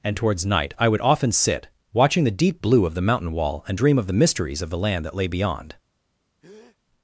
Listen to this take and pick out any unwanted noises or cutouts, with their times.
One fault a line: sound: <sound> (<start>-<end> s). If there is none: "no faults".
sound: breath (6.4-6.8 s)